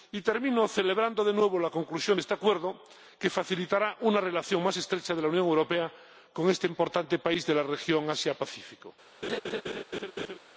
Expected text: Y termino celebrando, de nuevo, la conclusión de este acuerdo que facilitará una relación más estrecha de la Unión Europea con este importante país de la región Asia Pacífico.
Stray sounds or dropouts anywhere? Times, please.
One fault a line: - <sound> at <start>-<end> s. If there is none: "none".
- laugh at 9.2-10.4 s